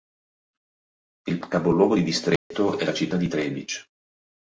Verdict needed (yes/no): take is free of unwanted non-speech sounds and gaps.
no